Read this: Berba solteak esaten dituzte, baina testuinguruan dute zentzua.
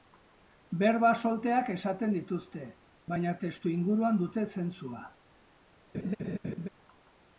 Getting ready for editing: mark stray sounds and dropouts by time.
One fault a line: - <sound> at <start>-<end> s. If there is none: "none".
- laugh at 5.9-6.7 s